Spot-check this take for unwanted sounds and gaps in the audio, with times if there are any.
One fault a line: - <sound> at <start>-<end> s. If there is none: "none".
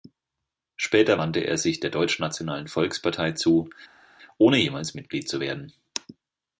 none